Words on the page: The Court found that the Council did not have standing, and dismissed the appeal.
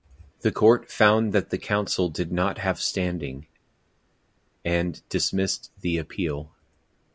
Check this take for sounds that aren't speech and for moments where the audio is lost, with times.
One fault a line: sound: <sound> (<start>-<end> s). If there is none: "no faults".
no faults